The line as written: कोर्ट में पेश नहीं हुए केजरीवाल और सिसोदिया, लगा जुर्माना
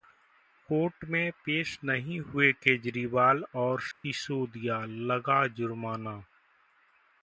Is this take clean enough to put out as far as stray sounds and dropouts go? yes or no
no